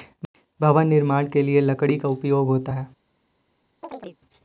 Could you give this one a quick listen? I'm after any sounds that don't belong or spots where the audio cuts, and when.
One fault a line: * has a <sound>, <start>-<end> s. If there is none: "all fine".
* has a chirp, 3.8-4.2 s